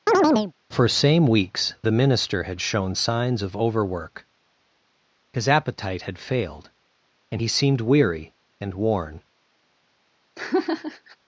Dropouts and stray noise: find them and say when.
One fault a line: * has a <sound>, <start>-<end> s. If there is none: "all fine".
* has a chirp, 0.1-0.5 s
* has a laugh, 10.4-11.2 s